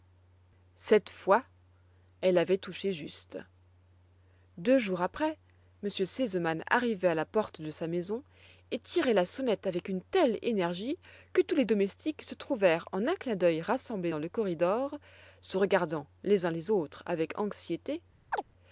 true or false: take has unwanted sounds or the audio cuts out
true